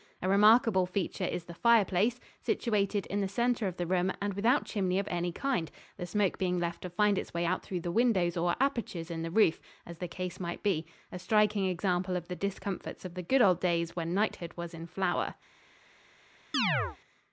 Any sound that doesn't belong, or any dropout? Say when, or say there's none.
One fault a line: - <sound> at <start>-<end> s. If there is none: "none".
- chirp at 16.5-17.0 s